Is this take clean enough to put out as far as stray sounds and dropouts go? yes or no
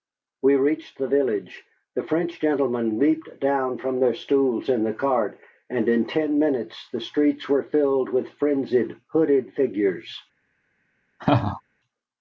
no